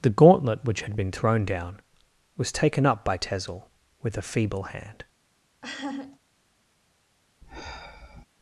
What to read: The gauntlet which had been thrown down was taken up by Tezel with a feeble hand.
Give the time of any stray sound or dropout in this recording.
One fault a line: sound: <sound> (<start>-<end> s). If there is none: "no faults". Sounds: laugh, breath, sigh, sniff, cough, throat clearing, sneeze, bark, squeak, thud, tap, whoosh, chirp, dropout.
sound: laugh (5.6-6.2 s)
sound: sigh (7.4-8.3 s)